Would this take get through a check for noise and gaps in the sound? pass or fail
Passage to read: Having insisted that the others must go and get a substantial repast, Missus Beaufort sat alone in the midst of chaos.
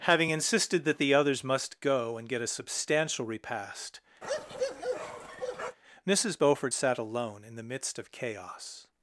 fail